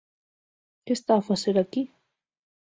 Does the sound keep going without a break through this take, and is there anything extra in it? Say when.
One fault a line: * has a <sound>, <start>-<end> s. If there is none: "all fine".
all fine